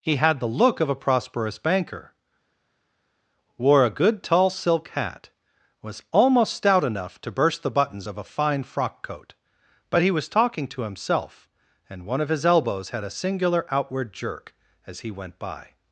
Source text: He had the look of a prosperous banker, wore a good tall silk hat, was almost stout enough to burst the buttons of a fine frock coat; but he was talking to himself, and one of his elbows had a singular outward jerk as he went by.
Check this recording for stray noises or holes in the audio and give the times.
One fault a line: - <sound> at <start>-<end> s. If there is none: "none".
none